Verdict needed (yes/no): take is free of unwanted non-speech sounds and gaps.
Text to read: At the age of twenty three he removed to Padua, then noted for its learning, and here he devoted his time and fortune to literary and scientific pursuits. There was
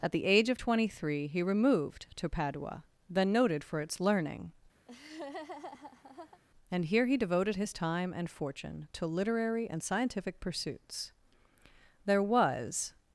no